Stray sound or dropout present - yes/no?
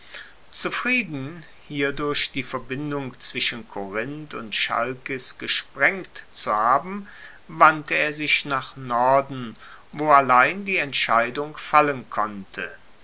no